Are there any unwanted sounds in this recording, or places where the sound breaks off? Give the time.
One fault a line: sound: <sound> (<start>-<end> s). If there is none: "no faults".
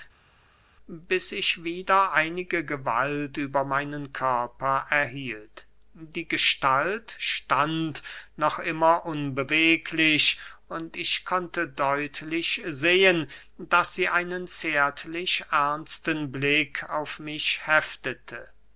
no faults